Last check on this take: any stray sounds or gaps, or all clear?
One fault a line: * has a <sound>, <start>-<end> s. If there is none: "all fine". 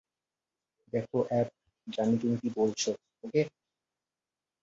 all fine